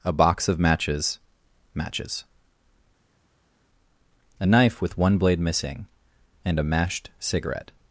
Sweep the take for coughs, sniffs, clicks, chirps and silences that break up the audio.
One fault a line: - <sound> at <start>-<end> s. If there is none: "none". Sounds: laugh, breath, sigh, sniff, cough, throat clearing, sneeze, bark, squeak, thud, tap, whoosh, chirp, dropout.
none